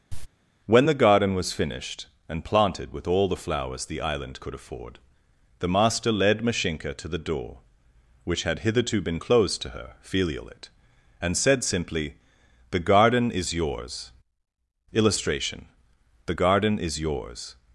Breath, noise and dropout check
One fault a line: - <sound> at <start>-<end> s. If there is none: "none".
- cough at 0.1-0.3 s